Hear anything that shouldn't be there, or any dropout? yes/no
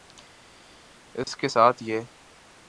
yes